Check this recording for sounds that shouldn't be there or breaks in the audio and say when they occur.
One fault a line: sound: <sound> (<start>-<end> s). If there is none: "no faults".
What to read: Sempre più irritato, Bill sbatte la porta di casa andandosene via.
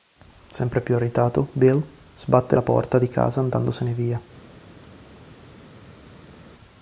no faults